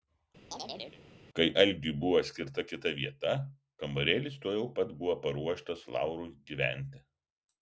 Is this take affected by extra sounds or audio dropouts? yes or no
yes